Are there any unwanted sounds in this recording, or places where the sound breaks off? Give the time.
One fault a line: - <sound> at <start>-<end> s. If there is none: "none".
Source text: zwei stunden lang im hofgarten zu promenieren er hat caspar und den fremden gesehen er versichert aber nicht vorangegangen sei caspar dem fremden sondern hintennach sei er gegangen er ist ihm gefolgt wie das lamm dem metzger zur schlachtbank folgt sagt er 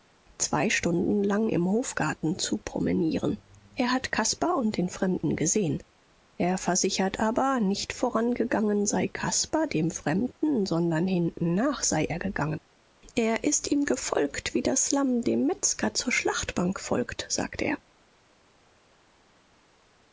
none